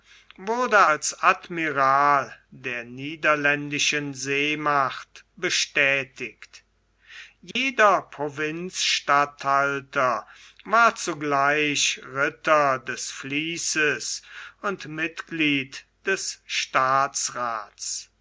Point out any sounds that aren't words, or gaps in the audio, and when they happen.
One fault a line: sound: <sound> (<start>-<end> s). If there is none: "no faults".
sound: dropout (7.5-7.6 s)